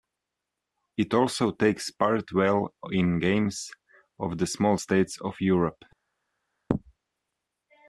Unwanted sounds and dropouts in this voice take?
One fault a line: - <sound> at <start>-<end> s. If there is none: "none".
none